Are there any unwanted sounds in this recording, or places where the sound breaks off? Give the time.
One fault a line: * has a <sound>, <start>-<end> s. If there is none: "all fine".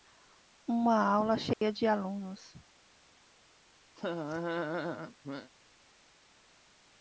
* has a dropout, 1.5-1.6 s
* has a laugh, 4.0-5.5 s